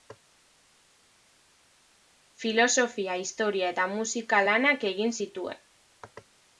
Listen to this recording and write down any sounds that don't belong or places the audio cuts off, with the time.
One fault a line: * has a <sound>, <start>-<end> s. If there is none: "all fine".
all fine